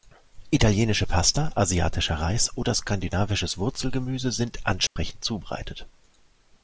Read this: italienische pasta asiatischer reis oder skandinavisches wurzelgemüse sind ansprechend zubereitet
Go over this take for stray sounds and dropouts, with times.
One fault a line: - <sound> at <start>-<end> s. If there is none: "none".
- dropout at 4.9-5.0 s